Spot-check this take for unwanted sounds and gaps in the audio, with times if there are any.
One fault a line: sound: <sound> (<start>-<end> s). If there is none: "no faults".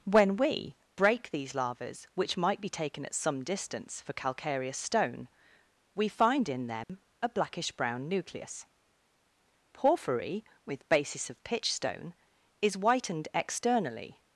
sound: dropout (6.8-6.9 s)